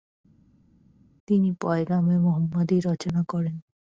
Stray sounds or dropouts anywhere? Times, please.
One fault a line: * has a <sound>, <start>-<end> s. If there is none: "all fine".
all fine